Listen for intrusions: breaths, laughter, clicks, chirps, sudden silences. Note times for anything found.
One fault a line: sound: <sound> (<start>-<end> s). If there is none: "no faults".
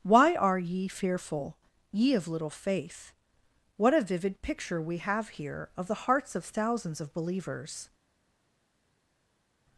no faults